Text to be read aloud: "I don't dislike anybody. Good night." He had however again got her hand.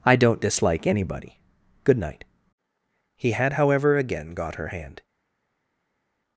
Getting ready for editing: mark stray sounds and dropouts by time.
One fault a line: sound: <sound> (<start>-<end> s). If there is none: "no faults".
no faults